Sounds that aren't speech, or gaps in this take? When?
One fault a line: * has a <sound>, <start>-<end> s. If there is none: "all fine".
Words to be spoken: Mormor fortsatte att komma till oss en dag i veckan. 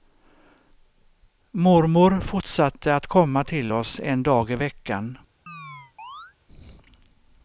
* has a chirp, 5.5-6.4 s